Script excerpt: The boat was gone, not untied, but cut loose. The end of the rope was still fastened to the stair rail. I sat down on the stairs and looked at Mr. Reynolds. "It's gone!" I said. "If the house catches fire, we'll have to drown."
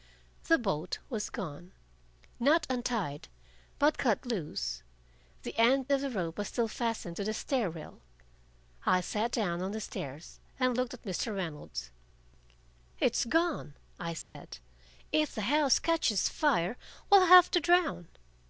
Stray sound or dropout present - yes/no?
yes